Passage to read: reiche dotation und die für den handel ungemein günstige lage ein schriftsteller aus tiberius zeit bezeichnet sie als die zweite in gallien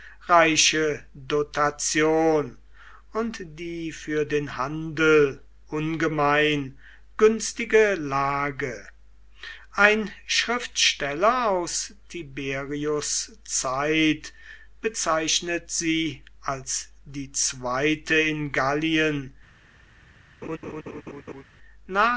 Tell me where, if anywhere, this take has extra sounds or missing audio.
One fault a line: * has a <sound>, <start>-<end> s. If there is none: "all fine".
* has a laugh, 20.4-21.4 s